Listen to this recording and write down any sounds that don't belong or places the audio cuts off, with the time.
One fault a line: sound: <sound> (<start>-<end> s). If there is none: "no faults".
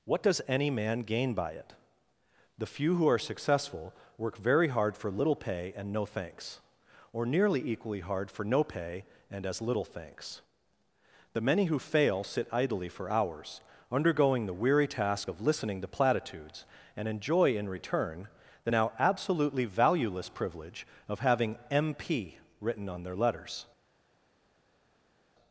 no faults